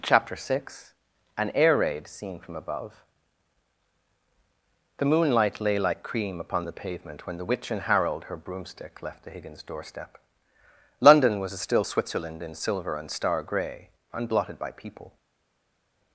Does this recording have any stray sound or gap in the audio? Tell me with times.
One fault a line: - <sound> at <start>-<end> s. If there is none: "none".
none